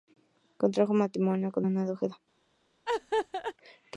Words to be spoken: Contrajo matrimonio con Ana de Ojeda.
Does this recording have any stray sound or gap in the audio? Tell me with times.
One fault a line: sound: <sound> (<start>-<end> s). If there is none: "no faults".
sound: laugh (2.9-3.5 s)